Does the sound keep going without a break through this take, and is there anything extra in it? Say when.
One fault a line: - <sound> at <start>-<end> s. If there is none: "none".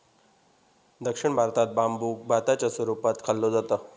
none